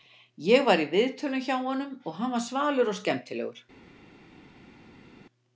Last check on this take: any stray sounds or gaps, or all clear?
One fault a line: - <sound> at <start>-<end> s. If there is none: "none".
none